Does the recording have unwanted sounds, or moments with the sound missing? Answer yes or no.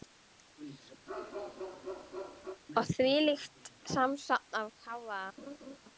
yes